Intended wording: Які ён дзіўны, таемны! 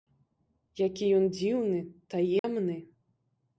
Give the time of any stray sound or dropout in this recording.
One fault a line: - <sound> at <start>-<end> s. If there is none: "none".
- dropout at 2.4-2.4 s